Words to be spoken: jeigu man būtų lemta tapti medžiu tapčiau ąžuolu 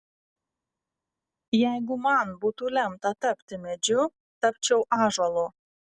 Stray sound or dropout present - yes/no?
no